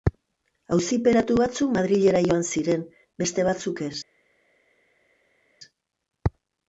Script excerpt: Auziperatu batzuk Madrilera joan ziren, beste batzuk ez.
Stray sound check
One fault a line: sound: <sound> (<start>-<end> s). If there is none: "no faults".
no faults